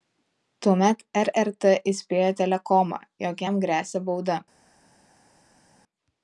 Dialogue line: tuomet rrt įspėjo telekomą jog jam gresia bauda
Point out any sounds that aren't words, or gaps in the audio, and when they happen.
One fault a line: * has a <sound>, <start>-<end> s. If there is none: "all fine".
all fine